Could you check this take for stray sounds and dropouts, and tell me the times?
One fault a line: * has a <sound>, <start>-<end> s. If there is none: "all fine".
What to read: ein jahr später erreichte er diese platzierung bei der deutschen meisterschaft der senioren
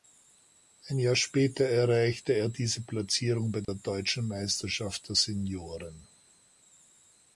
* has a dropout, 3.6-3.7 s